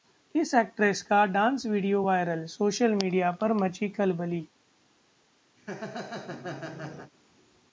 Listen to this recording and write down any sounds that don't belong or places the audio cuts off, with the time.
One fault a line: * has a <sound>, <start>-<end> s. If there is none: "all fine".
* has a laugh, 5.6-7.1 s